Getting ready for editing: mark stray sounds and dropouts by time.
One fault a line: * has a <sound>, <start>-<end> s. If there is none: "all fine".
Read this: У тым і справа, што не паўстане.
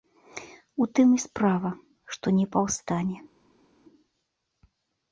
all fine